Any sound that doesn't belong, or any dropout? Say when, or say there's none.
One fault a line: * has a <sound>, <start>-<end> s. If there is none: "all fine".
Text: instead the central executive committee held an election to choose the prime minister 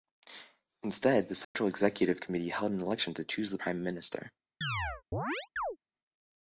* has a dropout, 1.4-1.5 s
* has a chirp, 4.6-5.8 s